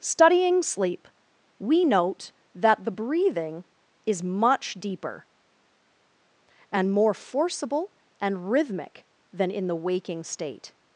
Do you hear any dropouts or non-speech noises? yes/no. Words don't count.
no